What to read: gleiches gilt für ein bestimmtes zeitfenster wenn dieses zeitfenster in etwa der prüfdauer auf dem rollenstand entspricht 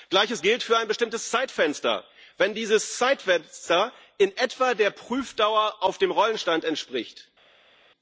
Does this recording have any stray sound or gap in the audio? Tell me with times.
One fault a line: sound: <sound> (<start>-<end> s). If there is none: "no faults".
no faults